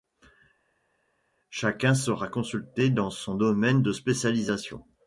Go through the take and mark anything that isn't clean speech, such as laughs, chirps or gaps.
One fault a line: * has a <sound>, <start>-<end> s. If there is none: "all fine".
all fine